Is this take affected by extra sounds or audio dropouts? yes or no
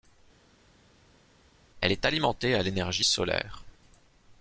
no